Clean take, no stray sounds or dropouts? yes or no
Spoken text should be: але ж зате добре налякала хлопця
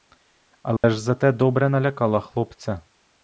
no